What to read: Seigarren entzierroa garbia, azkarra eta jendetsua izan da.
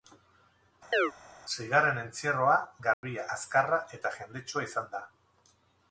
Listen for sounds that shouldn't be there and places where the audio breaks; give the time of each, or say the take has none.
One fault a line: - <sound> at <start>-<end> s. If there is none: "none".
- chirp at 0.9-1.1 s
- dropout at 2.9-3.0 s